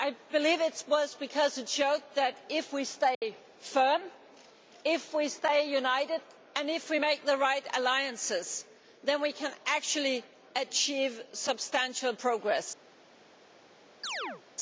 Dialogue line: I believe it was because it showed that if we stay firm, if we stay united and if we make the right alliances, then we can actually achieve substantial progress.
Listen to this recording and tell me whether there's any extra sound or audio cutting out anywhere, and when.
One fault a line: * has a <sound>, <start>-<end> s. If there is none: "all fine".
* has a dropout, 3.1-3.2 s
* has a chirp, 14.0-14.4 s